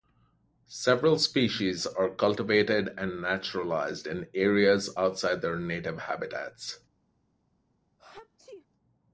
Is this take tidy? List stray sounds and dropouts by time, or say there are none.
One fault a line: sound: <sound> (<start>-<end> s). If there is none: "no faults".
sound: sneeze (8.0-8.7 s)